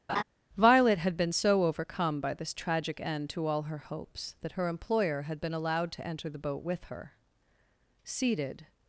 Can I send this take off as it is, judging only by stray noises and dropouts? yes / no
no